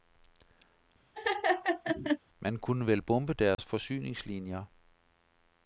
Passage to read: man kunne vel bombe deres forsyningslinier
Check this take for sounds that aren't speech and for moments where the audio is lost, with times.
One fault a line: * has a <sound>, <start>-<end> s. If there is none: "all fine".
* has a laugh, 1.1-2.2 s
* has a dropout, 3.5-3.6 s